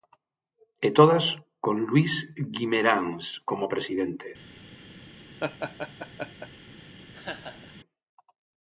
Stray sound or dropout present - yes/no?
yes